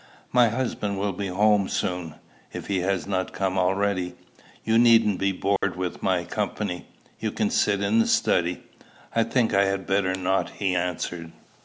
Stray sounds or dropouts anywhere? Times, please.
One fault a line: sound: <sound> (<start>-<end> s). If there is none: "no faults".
sound: dropout (5.6-5.6 s)